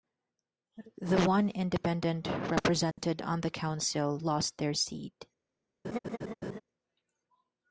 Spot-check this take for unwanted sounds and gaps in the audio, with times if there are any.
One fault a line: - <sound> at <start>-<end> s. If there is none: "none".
- dropout at 2.9-3.0 s
- laugh at 5.8-6.6 s